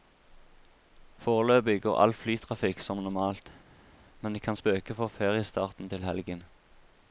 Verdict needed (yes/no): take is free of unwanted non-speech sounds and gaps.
yes